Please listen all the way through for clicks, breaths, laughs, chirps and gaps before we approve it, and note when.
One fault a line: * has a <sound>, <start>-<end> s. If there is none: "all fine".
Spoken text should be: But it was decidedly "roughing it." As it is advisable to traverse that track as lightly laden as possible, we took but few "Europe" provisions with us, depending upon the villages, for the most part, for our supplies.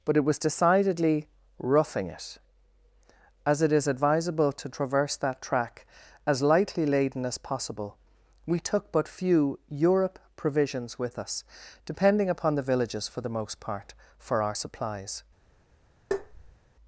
* has a tap, 16.1-16.6 s